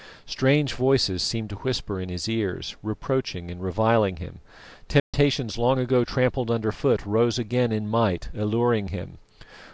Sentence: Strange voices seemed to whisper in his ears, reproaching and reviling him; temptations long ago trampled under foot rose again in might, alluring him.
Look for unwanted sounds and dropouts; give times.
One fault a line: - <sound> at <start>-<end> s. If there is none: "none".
- dropout at 5.0-5.1 s